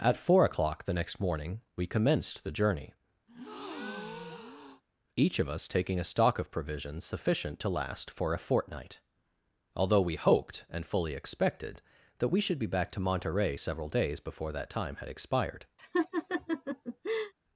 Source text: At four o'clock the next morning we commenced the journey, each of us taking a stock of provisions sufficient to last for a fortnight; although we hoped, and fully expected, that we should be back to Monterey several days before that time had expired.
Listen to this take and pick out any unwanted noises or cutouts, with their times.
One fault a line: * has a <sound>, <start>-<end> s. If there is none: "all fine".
* has a breath, 3.3-4.8 s
* has a laugh, 15.8-17.3 s